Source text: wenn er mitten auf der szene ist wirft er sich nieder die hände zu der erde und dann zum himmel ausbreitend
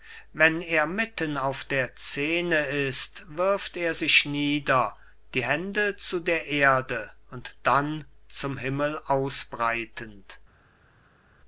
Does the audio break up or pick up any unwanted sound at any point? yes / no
no